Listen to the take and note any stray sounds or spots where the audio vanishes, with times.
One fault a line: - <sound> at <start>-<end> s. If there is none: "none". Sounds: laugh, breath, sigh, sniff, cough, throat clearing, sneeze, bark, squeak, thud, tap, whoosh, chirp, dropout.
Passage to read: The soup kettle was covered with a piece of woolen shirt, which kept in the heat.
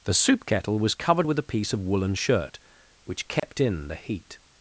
- dropout at 3.4-3.4 s